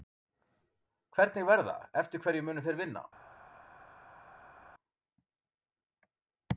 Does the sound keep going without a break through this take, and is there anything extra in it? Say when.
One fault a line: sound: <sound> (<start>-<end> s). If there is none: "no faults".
no faults